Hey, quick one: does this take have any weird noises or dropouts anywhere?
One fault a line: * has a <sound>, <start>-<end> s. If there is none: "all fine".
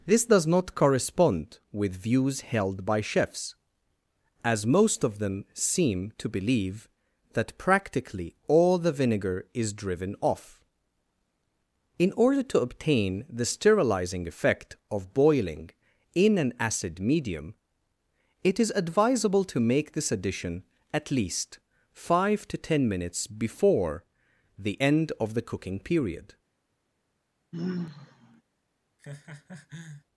* has a sigh, 27.5-28.4 s
* has a laugh, 29.0-30.0 s